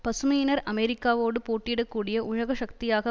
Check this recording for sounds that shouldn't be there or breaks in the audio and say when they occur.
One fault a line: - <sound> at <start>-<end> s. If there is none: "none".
none